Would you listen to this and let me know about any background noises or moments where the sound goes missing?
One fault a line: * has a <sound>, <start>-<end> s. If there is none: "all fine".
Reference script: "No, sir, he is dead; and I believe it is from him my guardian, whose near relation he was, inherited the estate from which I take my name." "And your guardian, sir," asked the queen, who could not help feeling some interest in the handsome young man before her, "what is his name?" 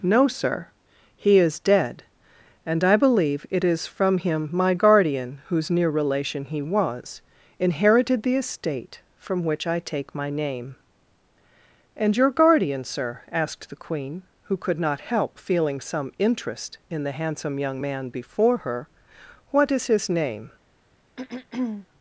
* has a throat clearing, 21.2-21.9 s